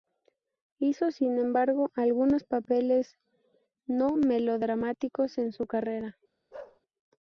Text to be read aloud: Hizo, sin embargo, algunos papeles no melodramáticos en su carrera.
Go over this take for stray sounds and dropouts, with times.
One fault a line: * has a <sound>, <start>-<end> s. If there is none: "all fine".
* has a bark, 6.5-6.8 s